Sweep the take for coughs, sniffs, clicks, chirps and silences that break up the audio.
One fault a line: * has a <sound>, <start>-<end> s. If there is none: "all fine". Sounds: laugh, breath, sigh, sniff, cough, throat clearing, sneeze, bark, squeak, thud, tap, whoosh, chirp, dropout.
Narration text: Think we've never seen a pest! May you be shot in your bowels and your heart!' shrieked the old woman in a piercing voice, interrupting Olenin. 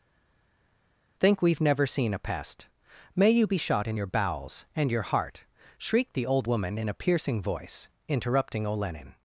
all fine